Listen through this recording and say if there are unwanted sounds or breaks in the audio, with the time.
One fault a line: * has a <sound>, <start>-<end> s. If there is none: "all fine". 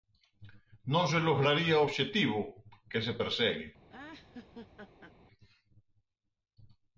* has a laugh, 3.9-5.1 s